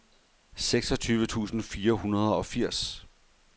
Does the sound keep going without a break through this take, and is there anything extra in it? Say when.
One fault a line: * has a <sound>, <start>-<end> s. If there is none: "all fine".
all fine